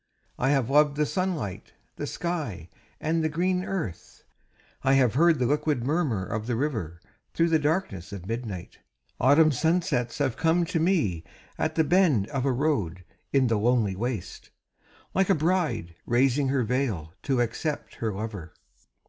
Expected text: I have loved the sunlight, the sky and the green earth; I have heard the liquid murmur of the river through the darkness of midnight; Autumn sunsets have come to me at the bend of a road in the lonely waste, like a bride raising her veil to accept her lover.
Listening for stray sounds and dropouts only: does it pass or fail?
pass